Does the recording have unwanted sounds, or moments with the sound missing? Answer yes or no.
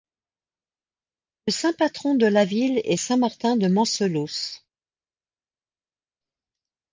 no